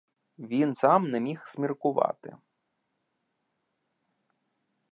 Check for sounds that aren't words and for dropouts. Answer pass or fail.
pass